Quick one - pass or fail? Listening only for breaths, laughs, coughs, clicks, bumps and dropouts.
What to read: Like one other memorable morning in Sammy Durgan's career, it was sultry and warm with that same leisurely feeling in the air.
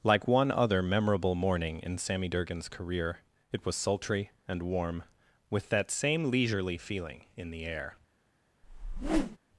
fail